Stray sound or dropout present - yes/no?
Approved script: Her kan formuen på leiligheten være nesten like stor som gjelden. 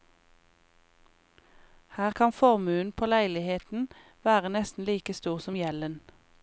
no